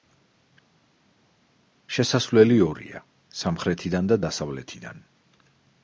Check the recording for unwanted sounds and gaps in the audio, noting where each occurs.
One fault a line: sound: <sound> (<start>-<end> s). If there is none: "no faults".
no faults